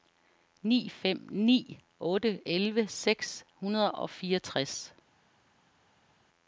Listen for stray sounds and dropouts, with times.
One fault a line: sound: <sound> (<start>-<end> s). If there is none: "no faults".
no faults